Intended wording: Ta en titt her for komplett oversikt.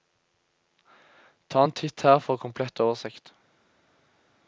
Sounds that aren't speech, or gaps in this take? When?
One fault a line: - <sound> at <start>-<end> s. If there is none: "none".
none